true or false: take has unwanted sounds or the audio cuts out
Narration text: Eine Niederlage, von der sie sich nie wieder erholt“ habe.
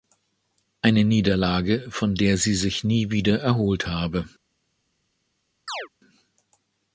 true